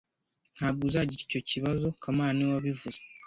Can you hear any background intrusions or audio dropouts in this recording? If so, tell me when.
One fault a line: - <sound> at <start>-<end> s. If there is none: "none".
none